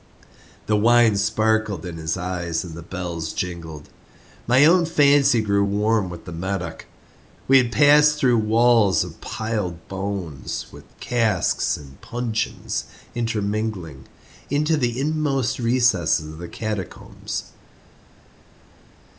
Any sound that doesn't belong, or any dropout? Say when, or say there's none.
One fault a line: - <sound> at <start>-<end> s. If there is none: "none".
none